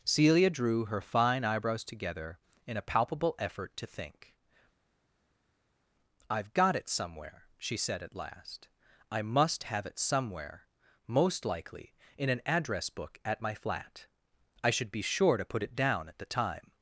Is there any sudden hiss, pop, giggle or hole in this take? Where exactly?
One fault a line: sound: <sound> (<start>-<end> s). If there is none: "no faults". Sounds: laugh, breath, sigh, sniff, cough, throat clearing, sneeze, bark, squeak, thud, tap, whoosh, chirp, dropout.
no faults